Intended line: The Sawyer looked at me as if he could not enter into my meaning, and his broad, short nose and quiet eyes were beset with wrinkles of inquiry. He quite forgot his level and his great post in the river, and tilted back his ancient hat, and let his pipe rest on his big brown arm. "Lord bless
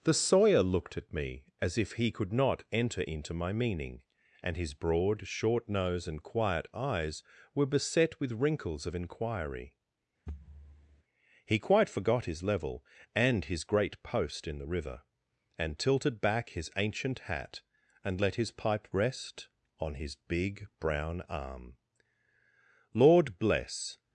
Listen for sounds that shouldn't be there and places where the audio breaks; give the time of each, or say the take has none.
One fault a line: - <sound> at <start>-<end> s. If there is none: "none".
- thud at 10.3-11.0 s